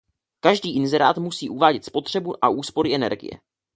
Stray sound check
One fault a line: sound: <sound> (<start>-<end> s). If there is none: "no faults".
no faults